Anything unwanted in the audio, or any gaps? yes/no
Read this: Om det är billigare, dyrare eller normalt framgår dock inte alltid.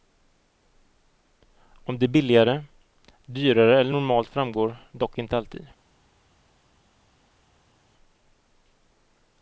no